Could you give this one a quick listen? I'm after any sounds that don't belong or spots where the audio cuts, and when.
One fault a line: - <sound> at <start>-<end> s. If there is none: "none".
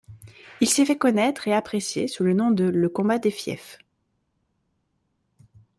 none